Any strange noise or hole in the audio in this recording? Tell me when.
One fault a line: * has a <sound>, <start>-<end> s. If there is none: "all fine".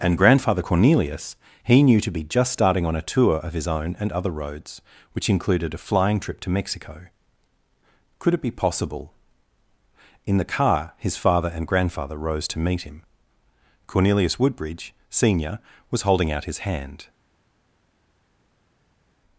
all fine